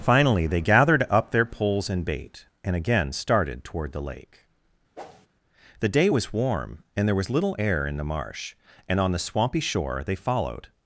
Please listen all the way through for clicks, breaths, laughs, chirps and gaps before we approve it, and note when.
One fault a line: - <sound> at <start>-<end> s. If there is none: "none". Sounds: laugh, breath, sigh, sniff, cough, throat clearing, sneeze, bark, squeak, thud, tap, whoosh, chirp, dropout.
- whoosh at 4.9-5.3 s